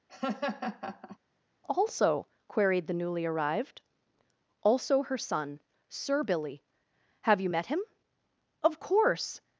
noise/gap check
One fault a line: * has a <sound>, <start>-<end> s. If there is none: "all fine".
* has a laugh, 0.1-1.2 s